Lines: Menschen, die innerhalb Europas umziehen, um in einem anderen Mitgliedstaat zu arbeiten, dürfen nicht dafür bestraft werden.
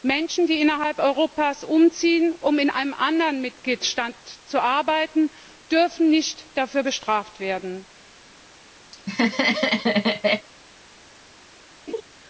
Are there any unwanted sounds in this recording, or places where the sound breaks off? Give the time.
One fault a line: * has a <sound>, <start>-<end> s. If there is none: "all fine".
* has a laugh, 8.9-10.5 s
* has a laugh, 11.9-12.0 s